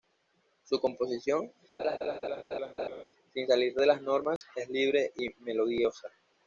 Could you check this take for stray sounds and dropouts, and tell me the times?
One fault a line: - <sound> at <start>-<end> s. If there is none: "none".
- laugh at 1.8-3.0 s
- dropout at 4.4-4.4 s